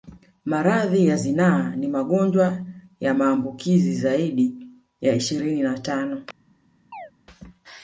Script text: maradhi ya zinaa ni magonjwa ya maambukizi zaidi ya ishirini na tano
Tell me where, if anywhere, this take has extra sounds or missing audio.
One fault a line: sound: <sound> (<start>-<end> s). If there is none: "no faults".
sound: chirp (6.9-7.1 s)